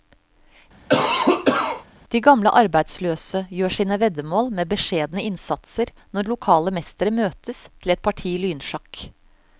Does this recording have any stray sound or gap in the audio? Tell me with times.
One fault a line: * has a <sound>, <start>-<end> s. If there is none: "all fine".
* has a cough, 0.9-1.8 s